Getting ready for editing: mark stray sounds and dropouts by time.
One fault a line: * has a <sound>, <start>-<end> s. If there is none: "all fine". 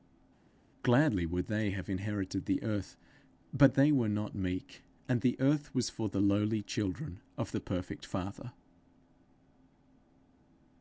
all fine